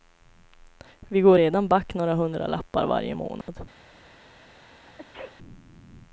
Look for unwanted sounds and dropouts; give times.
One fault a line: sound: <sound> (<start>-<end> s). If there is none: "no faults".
sound: dropout (3.4-3.5 s)
sound: sneeze (4.5-5.4 s)